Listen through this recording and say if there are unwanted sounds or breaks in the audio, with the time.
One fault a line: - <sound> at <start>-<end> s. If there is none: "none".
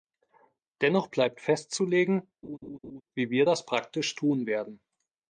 - laugh at 2.4-3.0 s